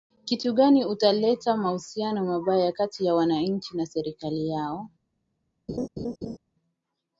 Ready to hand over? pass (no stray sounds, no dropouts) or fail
fail